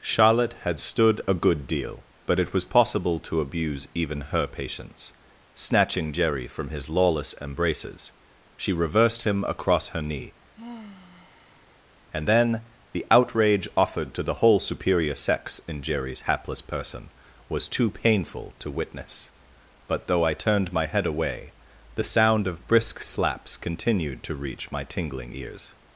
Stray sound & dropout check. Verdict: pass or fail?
fail